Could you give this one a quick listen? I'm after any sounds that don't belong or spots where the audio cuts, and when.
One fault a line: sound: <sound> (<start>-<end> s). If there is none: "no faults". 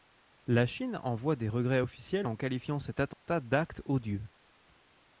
sound: dropout (3.1-3.3 s)